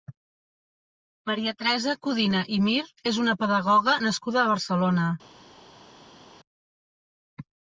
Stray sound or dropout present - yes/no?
no